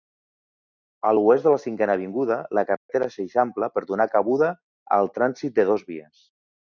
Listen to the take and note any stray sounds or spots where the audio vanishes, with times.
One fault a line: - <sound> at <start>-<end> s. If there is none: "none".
- dropout at 2.8-2.9 s